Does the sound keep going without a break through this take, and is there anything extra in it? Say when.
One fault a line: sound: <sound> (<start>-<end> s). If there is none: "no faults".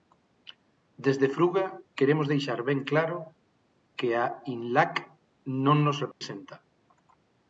sound: dropout (6.1-6.2 s)